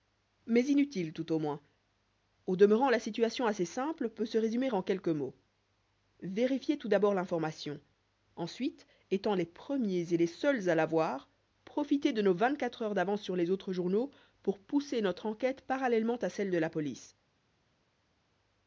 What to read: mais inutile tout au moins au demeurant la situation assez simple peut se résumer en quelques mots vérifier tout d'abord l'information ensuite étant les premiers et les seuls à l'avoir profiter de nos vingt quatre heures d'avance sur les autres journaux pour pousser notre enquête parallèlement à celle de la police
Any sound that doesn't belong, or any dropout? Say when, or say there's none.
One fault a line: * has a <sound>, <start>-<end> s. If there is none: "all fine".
all fine